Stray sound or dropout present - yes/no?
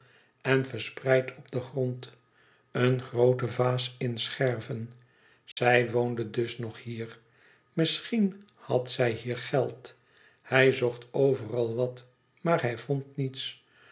yes